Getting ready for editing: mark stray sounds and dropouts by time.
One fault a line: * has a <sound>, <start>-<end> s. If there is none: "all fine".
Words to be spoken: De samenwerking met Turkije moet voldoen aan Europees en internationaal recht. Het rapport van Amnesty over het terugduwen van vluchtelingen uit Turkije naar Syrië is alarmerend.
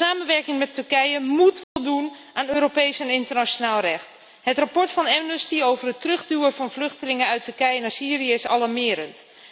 * has a dropout, 1.6-1.8 s